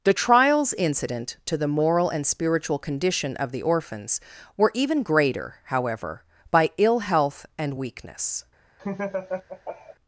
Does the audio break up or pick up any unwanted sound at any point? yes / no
yes